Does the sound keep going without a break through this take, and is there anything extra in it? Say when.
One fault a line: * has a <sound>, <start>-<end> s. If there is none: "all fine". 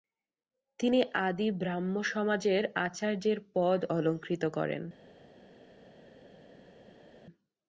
all fine